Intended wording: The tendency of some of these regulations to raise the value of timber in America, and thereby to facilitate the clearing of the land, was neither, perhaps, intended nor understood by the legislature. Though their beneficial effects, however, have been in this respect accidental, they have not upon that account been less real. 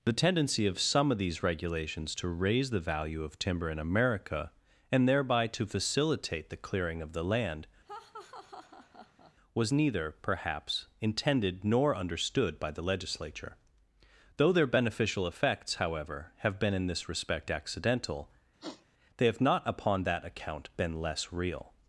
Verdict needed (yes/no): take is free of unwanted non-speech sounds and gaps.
no